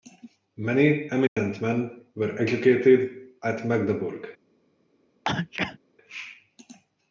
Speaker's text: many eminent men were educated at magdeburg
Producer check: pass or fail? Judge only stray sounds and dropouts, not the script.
fail